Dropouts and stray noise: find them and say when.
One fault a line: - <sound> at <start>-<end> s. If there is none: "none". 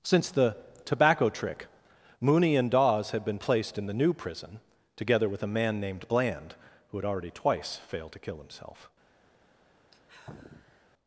- sigh at 9.9-10.9 s